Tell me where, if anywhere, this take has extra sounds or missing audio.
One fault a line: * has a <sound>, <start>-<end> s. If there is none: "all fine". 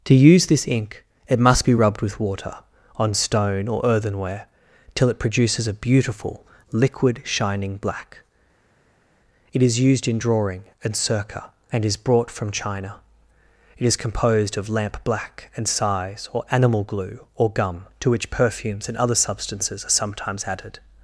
all fine